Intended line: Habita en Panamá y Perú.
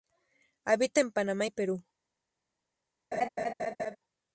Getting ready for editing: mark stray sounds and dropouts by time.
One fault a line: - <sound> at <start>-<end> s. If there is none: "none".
- laugh at 3.1-4.0 s